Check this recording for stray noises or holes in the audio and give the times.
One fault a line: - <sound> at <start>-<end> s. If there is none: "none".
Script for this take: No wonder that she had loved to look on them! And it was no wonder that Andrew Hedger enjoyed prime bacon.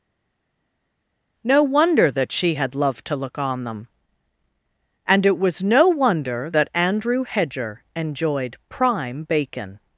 none